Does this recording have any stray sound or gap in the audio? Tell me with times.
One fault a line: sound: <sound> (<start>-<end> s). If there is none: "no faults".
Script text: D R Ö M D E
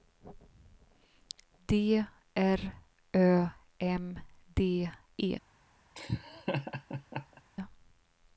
sound: laugh (5.9-7.4 s)